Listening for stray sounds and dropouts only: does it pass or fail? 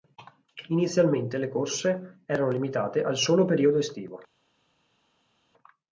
pass